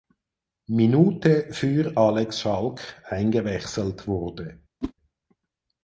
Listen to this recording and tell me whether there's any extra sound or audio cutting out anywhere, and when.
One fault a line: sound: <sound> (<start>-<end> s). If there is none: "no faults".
sound: whoosh (4.8-4.9 s)